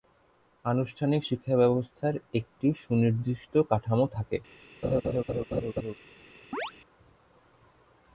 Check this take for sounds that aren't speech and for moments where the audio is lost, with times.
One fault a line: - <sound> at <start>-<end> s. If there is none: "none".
- laugh at 4.8-5.9 s
- chirp at 6.5-6.7 s